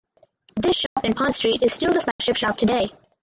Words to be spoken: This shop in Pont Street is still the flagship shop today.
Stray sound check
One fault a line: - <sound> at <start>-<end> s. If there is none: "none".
- dropout at 0.9-1.0 s
- dropout at 2.1-2.2 s